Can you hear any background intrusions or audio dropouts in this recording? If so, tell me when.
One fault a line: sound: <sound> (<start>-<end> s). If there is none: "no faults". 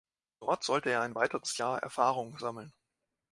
no faults